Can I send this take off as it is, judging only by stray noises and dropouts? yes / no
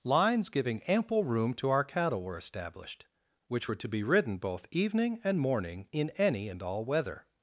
yes